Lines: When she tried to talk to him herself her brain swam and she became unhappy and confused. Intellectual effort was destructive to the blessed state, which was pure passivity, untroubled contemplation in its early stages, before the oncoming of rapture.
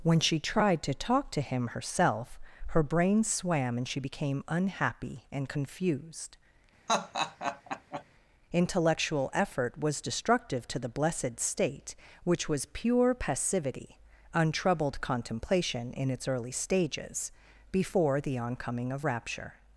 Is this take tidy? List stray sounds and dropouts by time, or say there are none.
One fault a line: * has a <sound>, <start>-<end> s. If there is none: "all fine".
* has a laugh, 6.9-8.0 s